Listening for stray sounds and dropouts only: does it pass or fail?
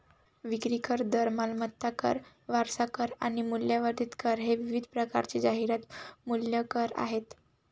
pass